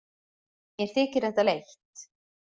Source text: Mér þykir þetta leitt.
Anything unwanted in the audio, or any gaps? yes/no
no